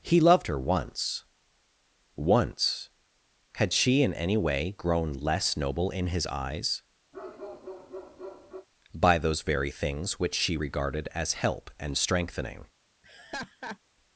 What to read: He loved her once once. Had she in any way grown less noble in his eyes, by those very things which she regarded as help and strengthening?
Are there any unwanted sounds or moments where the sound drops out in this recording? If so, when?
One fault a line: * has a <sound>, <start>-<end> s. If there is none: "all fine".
* has a bark, 7.1-8.7 s
* has a laugh, 13.0-13.8 s